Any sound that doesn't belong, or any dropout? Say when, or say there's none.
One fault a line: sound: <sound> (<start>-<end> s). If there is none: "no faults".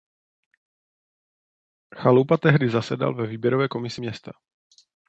no faults